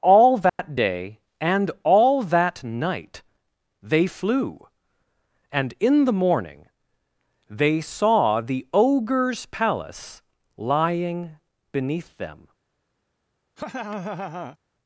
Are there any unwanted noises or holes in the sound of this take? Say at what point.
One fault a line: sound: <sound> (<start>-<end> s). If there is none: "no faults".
sound: dropout (0.5-0.6 s)
sound: laugh (13.6-14.6 s)